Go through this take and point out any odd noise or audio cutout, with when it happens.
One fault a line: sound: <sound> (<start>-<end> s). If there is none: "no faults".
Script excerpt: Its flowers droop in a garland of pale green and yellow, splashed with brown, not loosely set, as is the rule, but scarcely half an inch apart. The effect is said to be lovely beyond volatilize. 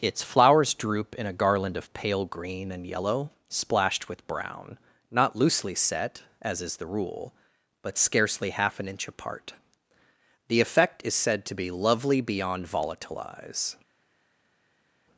no faults